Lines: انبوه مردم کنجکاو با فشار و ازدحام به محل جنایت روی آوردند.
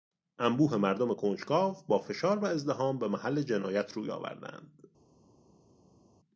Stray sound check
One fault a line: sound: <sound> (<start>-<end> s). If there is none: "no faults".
no faults